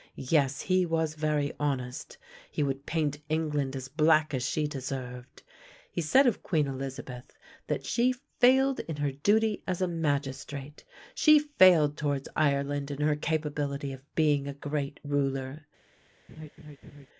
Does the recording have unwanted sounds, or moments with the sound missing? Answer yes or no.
yes